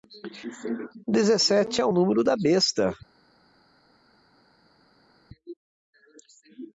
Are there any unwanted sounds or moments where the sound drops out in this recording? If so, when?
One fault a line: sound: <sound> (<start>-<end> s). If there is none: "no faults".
no faults